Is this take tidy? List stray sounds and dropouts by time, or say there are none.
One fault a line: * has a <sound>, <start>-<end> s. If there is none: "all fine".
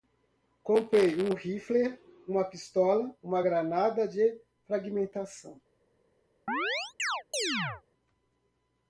* has a chirp, 6.5-7.8 s